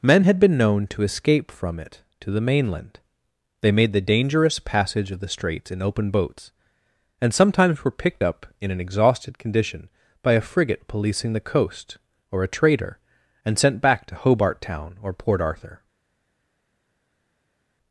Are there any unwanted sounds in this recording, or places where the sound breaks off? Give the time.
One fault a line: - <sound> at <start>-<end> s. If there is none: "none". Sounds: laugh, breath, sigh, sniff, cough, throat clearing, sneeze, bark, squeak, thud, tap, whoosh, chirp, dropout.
none